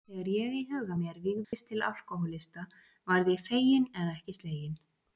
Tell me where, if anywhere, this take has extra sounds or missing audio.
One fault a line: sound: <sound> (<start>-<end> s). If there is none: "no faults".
sound: dropout (1.4-1.5 s)